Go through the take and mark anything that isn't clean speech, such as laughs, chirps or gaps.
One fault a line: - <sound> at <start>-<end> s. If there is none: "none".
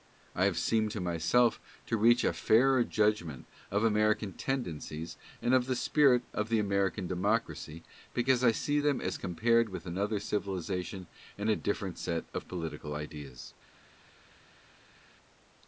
none